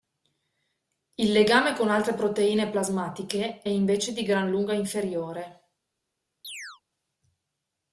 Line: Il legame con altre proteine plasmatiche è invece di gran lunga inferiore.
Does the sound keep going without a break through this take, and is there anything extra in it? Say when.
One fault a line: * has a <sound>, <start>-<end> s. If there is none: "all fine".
* has a chirp, 6.4-6.8 s